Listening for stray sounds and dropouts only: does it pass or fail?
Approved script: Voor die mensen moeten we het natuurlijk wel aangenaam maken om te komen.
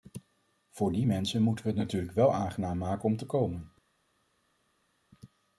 pass